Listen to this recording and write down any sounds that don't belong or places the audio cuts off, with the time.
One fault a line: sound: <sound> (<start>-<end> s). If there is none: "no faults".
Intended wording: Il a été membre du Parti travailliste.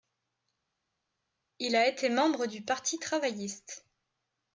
no faults